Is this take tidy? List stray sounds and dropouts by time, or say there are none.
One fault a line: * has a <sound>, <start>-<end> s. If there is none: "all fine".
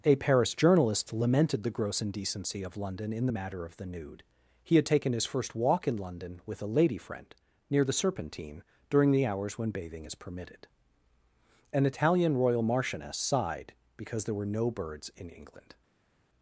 all fine